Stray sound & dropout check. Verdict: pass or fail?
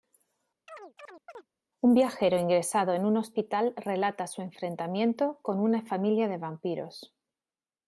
fail